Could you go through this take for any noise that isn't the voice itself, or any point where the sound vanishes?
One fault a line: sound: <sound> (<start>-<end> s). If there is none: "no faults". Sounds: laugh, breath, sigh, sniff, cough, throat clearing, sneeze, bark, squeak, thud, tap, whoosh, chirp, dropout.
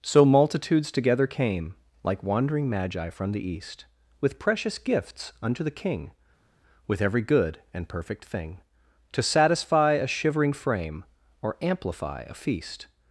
no faults